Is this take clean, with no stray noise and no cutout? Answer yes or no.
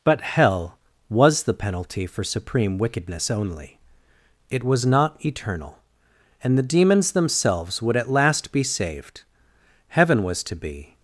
yes